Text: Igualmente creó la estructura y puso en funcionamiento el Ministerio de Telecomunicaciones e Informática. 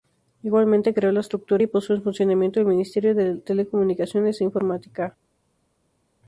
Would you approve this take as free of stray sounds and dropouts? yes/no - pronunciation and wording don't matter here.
yes